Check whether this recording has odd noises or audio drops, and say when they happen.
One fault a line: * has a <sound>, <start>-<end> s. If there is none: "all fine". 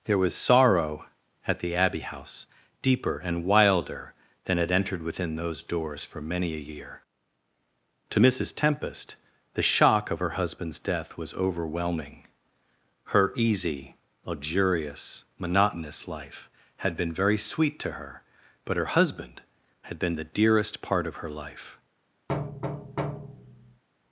* has a thud, 22.3-23.8 s